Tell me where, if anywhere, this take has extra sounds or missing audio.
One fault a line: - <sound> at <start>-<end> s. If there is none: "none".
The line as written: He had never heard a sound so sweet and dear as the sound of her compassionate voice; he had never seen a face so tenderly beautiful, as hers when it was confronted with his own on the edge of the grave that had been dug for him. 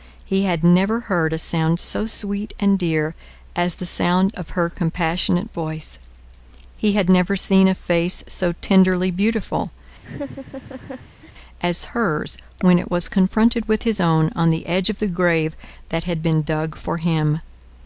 - laugh at 10.0-11.3 s